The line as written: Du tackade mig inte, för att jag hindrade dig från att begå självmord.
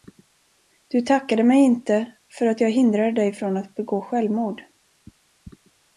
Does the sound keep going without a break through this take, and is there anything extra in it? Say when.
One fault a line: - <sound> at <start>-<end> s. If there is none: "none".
none